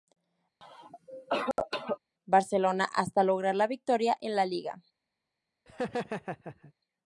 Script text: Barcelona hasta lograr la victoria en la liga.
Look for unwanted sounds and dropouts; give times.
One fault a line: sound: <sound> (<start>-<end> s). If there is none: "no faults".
sound: cough (0.6-2.0 s)
sound: laugh (5.7-6.7 s)